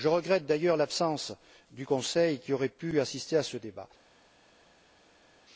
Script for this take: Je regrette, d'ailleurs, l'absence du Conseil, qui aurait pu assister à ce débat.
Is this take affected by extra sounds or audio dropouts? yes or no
no